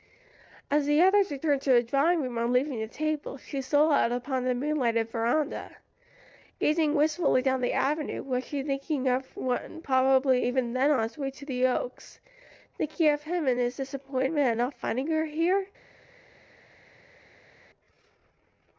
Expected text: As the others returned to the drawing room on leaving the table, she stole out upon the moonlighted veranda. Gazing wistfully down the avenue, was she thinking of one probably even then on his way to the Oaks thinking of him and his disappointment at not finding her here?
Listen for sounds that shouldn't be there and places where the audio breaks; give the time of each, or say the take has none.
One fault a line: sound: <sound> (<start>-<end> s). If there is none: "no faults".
no faults